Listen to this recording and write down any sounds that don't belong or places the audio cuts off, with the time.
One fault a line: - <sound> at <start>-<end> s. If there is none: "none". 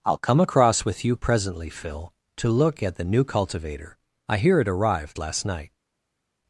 none